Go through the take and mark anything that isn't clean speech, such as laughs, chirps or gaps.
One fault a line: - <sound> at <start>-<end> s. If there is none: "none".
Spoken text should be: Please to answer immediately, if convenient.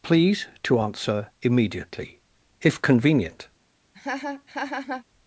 - laugh at 3.9-5.0 s